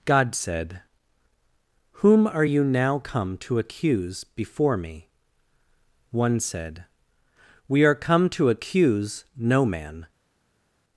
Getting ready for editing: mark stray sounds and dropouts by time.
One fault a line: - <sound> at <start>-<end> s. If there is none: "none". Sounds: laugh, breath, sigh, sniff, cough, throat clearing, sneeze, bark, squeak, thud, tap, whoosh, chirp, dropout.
none